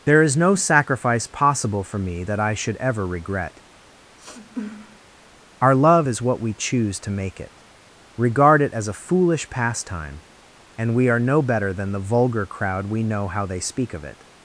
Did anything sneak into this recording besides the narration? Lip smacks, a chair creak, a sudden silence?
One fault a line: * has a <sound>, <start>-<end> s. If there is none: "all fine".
* has a sniff, 4.2-5.0 s